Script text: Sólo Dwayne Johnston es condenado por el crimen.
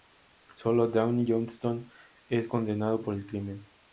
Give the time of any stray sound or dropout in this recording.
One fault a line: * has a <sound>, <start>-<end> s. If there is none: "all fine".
all fine